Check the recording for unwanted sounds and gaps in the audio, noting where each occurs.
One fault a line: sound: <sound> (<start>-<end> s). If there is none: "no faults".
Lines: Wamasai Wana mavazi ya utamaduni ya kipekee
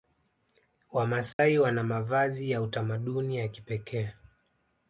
sound: dropout (1.3-1.4 s)